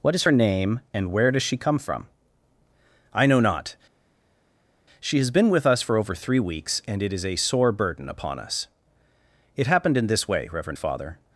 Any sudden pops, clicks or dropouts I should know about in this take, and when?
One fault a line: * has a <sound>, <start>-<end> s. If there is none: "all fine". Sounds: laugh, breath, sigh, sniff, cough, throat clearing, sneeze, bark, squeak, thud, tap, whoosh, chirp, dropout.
all fine